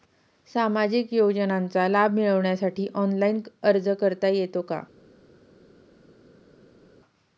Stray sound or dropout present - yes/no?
no